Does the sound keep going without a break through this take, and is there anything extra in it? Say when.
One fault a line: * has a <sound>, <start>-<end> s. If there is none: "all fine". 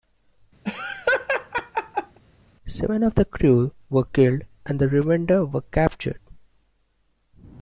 * has a laugh, 0.6-2.2 s